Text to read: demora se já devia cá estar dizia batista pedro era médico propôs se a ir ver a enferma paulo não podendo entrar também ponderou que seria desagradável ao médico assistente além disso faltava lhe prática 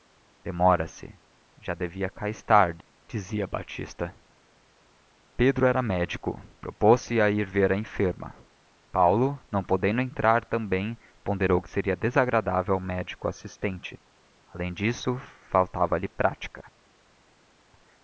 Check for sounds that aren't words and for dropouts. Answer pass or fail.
pass